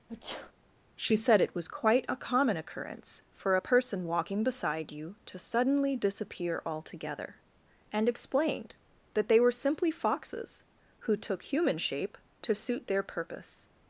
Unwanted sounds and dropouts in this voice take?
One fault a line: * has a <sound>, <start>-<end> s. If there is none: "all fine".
* has a sneeze, 0.1-0.5 s